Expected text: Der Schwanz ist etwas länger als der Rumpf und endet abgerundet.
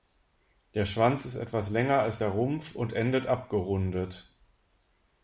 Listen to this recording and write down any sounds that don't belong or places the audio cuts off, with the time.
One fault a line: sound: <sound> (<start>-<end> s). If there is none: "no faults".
no faults